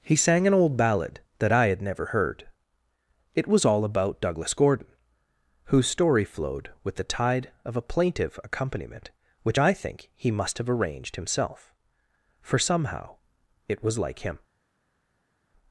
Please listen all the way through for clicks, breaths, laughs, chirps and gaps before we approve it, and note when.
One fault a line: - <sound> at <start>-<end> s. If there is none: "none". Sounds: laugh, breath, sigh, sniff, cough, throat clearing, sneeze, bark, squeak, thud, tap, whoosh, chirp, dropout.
none